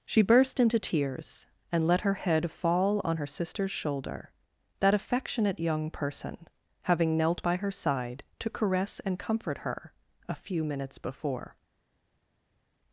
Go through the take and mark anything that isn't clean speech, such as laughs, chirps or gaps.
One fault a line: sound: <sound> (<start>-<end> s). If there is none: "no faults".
no faults